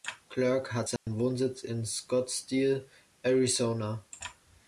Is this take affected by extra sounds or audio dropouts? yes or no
yes